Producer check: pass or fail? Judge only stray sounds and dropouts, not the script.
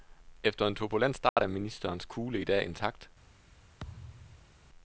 fail